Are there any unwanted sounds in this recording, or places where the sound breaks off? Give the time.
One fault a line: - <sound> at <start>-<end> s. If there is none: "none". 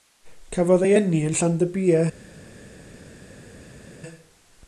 none